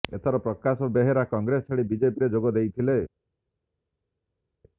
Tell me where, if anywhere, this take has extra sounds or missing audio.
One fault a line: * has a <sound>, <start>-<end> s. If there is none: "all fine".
all fine